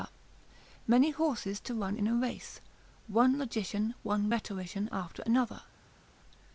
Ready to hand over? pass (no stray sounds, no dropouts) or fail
pass